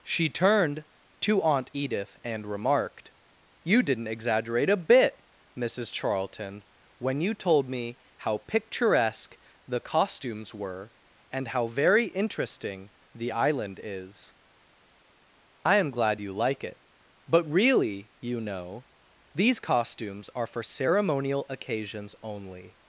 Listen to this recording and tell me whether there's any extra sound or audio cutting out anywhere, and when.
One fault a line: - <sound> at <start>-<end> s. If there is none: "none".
none